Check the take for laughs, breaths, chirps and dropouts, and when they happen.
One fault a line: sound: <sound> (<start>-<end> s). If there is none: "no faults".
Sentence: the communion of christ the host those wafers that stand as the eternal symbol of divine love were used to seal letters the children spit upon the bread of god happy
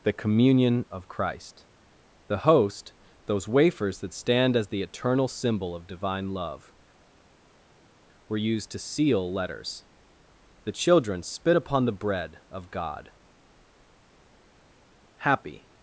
no faults